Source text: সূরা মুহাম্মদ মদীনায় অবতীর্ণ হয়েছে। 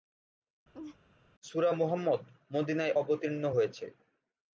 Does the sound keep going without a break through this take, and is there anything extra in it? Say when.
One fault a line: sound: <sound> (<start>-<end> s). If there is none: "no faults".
sound: laugh (0.7-1.0 s)